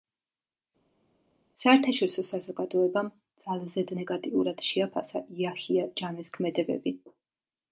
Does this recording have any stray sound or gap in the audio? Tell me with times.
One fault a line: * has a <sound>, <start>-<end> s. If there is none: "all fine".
all fine